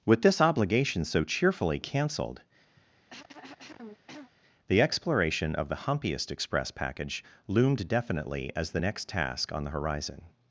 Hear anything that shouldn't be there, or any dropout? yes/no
yes